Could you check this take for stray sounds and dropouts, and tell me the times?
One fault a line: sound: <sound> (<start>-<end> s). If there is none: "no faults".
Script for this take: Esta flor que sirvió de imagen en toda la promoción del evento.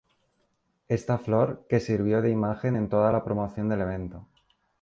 no faults